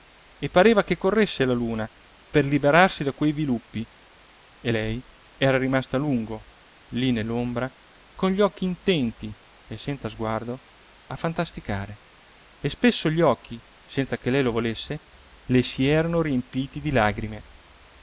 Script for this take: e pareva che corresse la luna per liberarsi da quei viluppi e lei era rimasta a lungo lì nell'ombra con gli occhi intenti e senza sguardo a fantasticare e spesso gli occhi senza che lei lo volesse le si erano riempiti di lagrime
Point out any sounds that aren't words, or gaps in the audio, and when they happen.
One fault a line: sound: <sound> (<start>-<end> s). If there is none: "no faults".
no faults